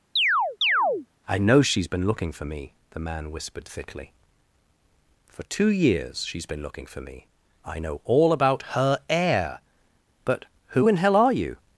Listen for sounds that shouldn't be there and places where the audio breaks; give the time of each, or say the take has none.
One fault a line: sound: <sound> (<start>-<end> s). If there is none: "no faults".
sound: chirp (0.2-1.1 s)